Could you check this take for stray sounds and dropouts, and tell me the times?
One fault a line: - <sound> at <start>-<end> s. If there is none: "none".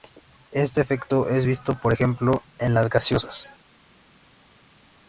none